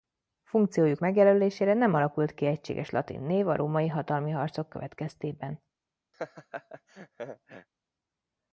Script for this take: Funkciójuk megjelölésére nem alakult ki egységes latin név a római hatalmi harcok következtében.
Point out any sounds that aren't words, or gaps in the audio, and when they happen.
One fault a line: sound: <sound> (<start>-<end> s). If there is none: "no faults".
sound: laugh (6.1-7.7 s)